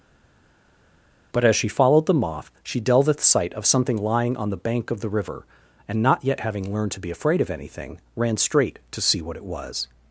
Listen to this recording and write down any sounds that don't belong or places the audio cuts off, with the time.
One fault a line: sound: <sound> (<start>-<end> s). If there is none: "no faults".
no faults